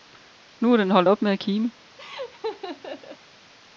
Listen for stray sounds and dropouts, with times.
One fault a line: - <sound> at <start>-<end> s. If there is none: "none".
- laugh at 2.0-3.2 s